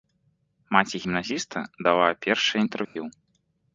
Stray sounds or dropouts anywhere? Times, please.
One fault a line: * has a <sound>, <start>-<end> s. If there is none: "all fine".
* has a dropout, 2.8-3.0 s